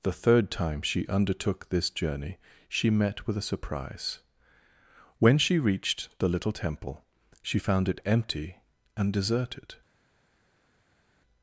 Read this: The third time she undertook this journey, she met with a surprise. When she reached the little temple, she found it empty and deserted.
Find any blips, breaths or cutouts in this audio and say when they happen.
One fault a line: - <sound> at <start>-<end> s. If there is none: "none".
none